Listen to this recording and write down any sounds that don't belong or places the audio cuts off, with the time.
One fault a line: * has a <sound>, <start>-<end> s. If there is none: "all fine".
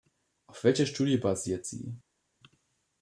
all fine